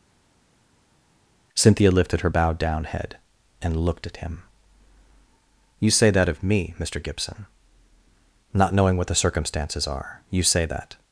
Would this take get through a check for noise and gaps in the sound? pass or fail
pass